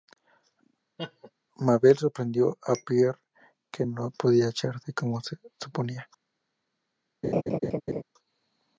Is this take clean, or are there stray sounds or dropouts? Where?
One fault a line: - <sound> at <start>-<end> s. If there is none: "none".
- laugh at 1.0-1.3 s
- laugh at 7.2-8.0 s